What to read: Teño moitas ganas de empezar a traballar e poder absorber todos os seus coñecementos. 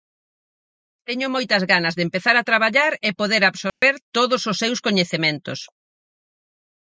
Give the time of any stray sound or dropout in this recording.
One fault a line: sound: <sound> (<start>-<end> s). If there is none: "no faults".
sound: dropout (3.7-3.8 s)